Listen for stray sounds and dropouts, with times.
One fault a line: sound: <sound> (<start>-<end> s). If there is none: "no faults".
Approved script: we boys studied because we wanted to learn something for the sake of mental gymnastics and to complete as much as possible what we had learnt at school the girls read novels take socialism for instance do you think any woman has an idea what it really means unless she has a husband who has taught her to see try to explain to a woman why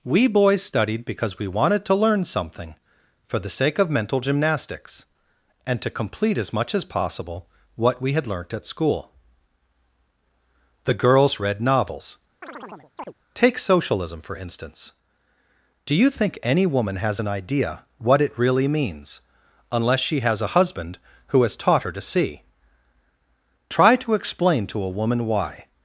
sound: chirp (12.4-13.1 s)